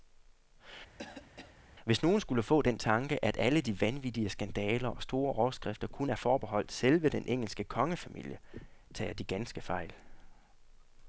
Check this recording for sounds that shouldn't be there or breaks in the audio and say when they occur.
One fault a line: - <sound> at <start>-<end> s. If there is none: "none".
- cough at 1.0-1.6 s